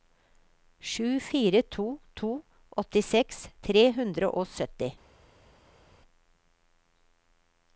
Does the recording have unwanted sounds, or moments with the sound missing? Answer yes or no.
no